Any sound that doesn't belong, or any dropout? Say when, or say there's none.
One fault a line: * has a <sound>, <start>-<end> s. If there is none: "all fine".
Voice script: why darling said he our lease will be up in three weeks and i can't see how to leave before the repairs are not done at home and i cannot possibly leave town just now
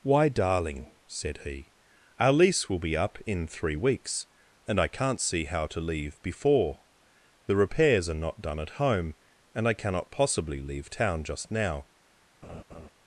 * has a laugh, 12.4-12.9 s